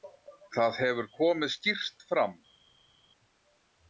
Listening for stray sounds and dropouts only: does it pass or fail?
pass